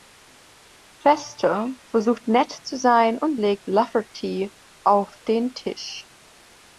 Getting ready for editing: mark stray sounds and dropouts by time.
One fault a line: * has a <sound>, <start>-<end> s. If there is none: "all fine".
all fine